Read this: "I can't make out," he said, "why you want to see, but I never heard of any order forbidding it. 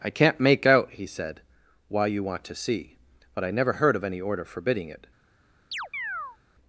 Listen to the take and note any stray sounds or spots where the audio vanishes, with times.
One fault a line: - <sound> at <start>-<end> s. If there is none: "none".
- chirp at 5.7-6.4 s